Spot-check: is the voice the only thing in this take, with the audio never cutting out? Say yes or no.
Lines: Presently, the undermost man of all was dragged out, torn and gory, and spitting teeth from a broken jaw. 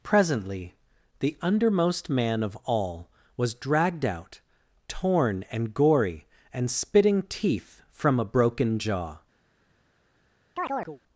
no